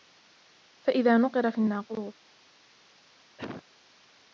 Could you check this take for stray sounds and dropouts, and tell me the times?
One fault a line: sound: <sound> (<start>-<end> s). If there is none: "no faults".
sound: cough (3.4-3.6 s)